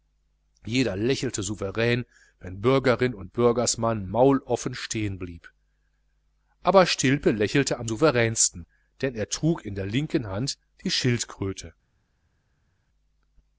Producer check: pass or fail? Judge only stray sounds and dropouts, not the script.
pass